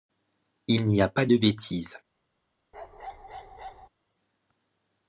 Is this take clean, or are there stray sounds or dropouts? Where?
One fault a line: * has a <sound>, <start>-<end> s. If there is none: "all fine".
* has a bark, 2.7-3.9 s